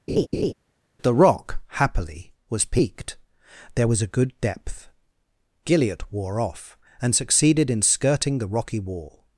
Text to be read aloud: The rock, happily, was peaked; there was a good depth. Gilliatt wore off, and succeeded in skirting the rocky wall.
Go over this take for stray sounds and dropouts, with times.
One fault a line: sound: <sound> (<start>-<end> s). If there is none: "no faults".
sound: laugh (0.1-0.5 s)